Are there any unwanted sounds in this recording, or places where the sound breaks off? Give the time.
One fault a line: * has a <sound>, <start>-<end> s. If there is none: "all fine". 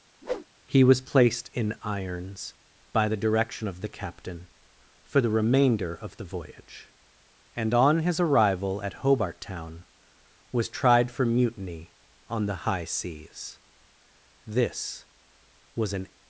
* has a whoosh, 0.2-0.5 s